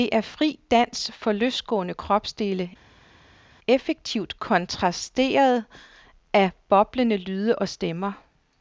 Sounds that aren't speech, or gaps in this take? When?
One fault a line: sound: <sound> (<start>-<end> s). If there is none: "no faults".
no faults